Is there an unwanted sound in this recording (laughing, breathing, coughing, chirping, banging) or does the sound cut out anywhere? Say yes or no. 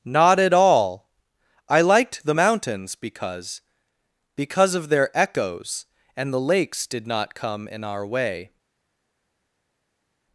no